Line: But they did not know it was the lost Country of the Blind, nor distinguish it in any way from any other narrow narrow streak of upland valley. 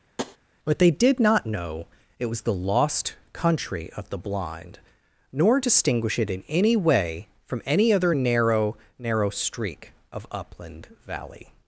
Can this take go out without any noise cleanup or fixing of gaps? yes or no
no